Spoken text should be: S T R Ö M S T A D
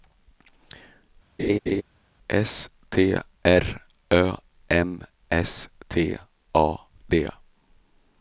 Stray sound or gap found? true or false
true